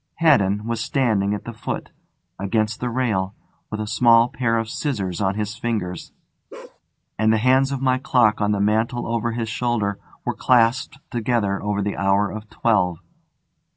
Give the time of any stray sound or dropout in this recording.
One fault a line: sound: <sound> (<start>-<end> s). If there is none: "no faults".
sound: bark (6.5-6.8 s)